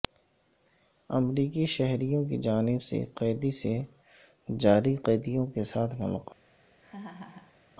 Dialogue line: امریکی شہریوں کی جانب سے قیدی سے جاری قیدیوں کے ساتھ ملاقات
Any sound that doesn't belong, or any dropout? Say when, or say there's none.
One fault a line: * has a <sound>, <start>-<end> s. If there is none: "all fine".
* has a laugh, 6.8-7.6 s